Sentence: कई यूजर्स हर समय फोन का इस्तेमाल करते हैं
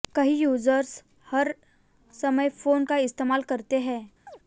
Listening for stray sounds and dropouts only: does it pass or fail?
fail